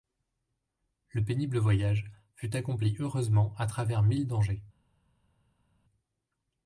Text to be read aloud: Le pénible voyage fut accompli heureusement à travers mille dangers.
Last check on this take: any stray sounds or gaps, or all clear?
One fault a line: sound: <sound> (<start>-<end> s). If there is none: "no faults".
no faults